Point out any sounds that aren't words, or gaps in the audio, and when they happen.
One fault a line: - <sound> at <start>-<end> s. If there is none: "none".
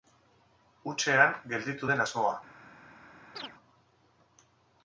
- chirp at 3.4-3.5 s